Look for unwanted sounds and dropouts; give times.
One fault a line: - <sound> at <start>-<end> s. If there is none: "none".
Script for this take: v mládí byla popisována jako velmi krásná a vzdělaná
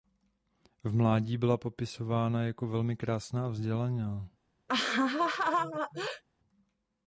- laugh at 4.7-6.2 s